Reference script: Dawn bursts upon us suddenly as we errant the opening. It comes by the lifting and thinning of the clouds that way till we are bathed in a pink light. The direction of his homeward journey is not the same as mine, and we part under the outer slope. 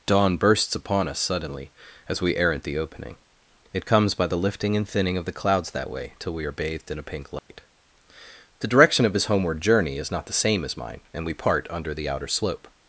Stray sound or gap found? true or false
true